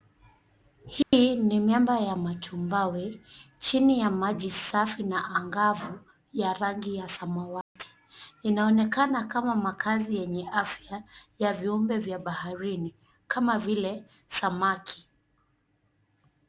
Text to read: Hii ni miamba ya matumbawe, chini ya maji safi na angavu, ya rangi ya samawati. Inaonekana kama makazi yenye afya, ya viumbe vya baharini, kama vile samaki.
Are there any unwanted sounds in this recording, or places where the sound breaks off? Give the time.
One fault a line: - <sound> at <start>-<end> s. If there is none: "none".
- dropout at 1.0-1.1 s
- dropout at 7.6-7.8 s